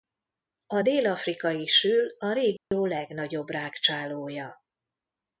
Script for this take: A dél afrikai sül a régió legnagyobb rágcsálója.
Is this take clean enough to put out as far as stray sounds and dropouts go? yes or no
no